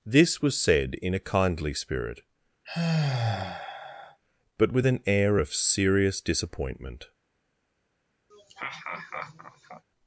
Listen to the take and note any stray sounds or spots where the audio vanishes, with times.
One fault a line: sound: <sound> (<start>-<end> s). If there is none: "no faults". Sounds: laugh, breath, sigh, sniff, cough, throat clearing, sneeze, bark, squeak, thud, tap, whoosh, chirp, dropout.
sound: sigh (2.6-4.2 s)
sound: laugh (8.3-9.8 s)